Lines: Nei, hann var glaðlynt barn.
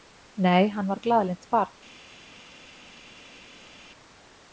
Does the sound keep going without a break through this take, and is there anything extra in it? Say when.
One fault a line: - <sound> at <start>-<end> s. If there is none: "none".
none